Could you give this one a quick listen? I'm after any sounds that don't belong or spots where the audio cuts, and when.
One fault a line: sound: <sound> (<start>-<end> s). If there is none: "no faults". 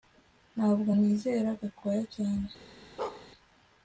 sound: bark (3.0-3.3 s)